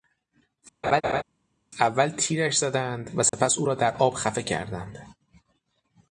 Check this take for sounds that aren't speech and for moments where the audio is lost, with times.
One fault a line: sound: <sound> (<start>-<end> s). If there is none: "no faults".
sound: laugh (0.8-1.2 s)
sound: dropout (3.3-3.3 s)